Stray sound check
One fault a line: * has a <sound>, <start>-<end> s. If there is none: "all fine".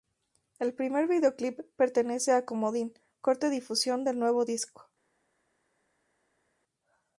all fine